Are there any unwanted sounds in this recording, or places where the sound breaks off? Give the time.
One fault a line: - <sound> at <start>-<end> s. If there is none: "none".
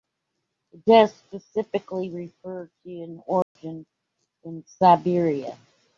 - dropout at 3.4-3.6 s